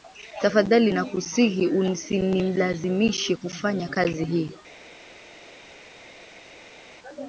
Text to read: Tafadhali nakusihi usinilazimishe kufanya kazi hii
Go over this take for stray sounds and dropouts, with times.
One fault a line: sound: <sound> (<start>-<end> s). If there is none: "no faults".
no faults